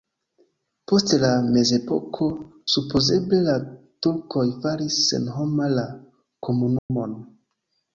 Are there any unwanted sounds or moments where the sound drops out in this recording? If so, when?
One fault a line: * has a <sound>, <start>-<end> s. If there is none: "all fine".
* has a dropout, 6.8-6.9 s